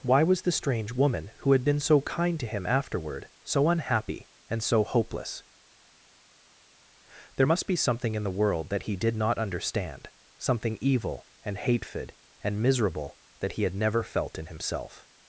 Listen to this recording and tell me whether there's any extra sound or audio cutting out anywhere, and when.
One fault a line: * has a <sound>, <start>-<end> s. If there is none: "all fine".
all fine